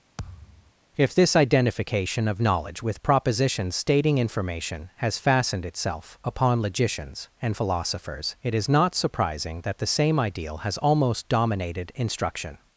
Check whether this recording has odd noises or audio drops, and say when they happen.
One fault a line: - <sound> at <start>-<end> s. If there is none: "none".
- thud at 0.2-0.7 s